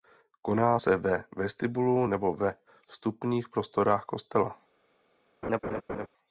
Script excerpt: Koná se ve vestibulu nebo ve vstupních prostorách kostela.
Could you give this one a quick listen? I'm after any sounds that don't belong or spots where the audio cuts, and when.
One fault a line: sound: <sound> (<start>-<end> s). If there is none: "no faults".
sound: laugh (5.4-6.1 s)